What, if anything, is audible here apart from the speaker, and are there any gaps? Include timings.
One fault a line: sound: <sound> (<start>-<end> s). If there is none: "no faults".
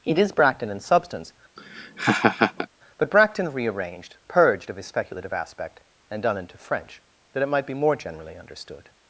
sound: laugh (1.6-2.7 s)